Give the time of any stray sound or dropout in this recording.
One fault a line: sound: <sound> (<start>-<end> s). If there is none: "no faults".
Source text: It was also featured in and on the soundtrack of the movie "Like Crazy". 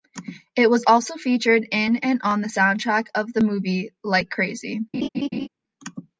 sound: laugh (4.9-5.5 s)